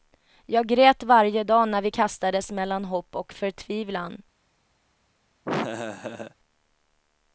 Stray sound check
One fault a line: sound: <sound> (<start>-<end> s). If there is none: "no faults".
sound: laugh (5.4-6.3 s)